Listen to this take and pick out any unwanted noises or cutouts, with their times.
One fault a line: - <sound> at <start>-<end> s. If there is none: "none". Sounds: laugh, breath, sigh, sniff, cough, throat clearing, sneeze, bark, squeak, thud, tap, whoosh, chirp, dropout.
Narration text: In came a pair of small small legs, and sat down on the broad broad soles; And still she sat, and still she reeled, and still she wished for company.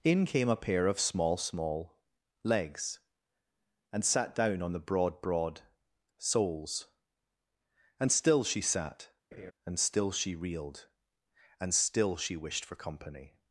- laugh at 9.3-9.5 s